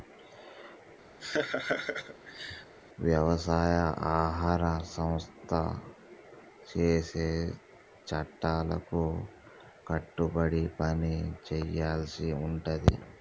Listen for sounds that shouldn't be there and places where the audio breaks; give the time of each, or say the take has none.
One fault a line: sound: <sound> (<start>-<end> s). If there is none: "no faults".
sound: laugh (1.2-2.7 s)